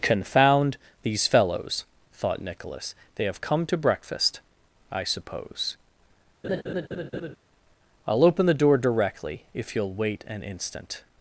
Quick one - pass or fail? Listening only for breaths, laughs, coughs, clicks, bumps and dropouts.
fail